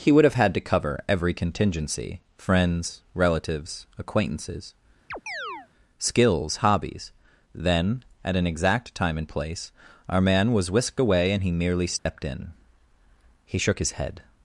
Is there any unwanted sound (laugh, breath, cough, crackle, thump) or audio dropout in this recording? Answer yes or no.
yes